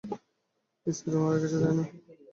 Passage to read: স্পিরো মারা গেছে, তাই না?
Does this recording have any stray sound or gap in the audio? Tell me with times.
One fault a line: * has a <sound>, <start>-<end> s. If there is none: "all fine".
all fine